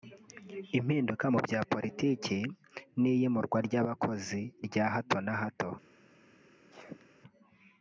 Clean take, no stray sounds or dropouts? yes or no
no